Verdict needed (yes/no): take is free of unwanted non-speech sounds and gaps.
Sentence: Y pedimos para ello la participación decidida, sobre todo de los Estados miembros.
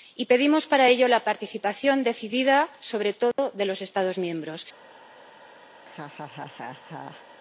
no